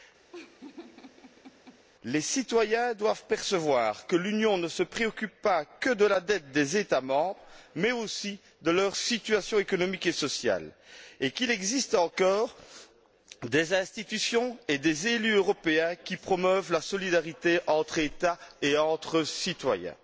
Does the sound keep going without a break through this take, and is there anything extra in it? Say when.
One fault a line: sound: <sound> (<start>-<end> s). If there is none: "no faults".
sound: laugh (0.3-1.8 s)